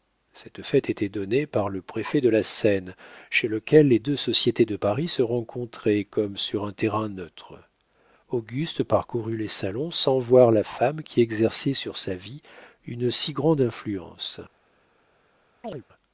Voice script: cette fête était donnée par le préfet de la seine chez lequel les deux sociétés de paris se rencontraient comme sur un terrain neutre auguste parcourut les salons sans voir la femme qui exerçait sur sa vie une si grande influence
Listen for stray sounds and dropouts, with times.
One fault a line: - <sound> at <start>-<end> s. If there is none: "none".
- chirp at 15.6-15.8 s